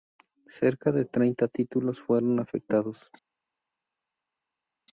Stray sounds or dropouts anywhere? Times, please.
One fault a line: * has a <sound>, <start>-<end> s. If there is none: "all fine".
all fine